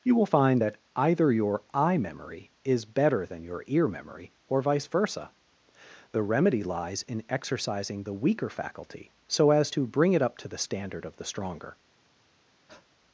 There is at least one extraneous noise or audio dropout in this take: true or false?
true